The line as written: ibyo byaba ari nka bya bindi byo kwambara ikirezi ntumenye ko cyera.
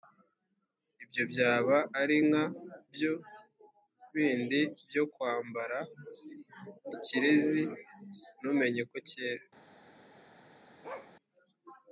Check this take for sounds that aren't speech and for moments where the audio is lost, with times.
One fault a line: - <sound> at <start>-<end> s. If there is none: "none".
- bark at 10.8-11.1 s